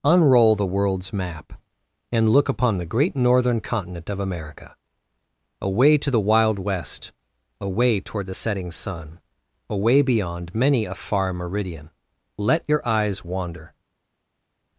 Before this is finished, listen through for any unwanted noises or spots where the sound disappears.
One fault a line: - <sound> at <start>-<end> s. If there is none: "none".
none